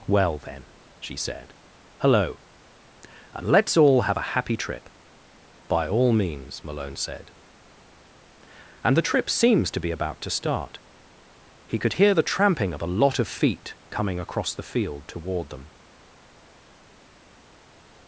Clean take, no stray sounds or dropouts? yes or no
yes